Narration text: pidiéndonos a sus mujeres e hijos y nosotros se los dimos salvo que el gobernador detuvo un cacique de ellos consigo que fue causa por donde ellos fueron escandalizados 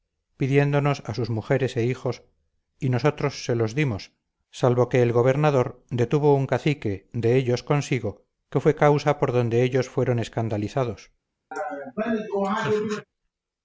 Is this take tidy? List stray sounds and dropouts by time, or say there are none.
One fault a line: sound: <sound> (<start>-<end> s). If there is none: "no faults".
sound: laugh (11.5-13.1 s)